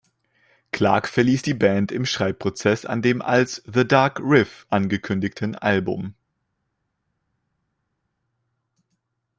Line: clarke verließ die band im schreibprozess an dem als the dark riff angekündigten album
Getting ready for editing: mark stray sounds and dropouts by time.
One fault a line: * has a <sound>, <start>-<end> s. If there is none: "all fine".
all fine